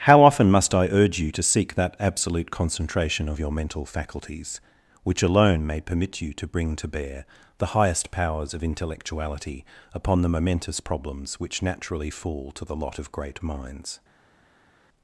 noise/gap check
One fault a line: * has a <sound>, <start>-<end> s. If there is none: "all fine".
all fine